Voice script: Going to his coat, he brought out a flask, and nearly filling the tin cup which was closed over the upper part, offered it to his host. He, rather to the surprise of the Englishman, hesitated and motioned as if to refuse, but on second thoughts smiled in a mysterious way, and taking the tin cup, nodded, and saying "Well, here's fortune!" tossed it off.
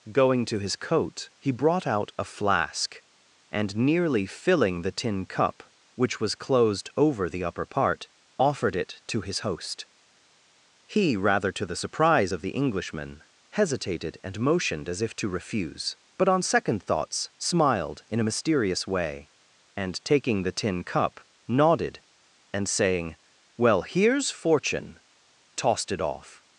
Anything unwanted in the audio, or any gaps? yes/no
no